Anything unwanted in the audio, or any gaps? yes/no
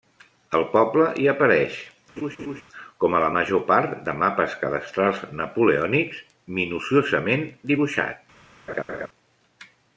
yes